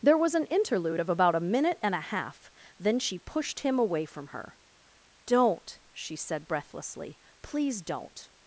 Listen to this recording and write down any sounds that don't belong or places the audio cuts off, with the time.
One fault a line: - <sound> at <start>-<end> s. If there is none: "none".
none